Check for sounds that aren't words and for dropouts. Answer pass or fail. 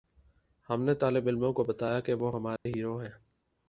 fail